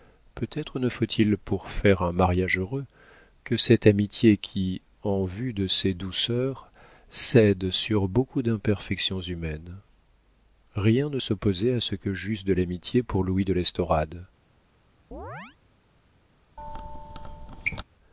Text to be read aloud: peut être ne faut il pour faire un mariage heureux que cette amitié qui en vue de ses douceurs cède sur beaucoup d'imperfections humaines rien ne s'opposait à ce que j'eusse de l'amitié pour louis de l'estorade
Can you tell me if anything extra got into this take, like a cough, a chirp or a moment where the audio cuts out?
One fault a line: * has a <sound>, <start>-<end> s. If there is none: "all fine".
* has a chirp, 15.1-15.6 s
* has a squeak, 16.6-17.8 s